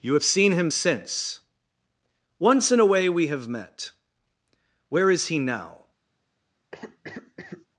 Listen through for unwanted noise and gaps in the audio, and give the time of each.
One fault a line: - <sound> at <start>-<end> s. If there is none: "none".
- cough at 6.7-7.7 s